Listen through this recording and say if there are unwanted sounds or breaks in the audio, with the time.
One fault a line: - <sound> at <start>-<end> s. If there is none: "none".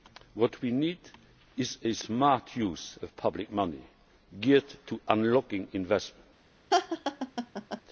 - laugh at 6.7-7.8 s